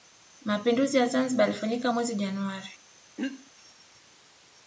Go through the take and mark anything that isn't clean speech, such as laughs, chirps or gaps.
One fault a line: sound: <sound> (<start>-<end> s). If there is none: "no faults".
sound: throat clearing (3.2-3.5 s)